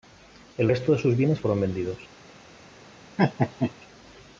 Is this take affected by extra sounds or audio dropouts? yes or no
yes